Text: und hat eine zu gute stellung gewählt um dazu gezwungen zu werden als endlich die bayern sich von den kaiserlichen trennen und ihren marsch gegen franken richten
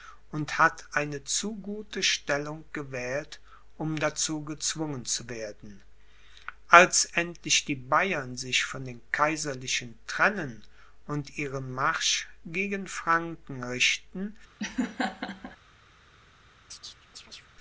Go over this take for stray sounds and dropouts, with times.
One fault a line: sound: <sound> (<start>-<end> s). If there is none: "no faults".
sound: laugh (14.6-15.6 s)
sound: chirp (16.7-17.5 s)